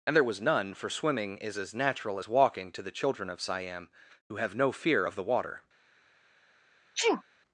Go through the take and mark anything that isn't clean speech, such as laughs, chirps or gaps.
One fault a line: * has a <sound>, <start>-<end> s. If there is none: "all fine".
* has a sneeze, 6.9-7.2 s